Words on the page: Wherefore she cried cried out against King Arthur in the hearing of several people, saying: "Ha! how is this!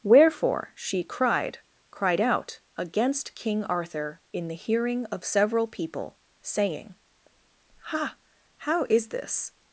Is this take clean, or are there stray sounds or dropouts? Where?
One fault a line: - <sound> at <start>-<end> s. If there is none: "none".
none